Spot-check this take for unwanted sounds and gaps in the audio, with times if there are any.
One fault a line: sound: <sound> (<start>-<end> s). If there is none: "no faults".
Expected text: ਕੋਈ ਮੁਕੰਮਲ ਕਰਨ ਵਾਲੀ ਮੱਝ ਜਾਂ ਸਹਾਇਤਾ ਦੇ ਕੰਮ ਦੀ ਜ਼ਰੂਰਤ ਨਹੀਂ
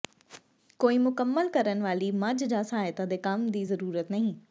no faults